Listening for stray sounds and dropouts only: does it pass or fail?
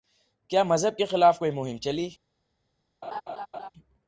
fail